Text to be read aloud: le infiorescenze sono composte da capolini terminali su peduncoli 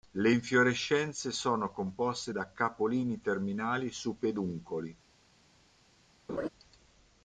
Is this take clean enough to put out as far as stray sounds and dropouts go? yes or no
no